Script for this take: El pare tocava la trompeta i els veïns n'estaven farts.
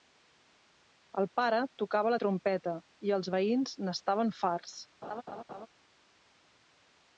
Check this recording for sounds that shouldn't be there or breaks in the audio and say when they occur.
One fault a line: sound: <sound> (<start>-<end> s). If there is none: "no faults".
sound: laugh (5.0-5.7 s)